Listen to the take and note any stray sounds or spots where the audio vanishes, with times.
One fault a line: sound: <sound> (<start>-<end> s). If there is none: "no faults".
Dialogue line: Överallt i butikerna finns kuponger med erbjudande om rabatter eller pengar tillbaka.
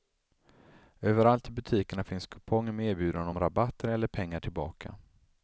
no faults